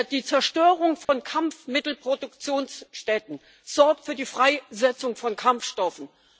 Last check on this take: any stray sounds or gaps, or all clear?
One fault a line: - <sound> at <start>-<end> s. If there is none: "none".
- dropout at 1.0-1.1 s